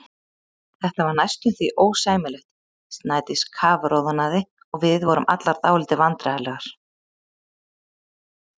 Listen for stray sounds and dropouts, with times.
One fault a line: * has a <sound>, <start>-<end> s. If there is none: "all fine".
all fine